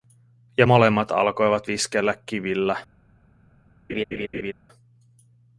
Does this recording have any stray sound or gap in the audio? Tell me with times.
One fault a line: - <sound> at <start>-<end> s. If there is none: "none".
- laugh at 3.9-4.5 s